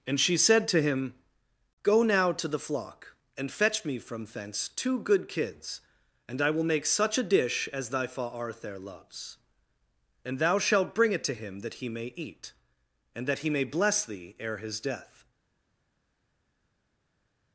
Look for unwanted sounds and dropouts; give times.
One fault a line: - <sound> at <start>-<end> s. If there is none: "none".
none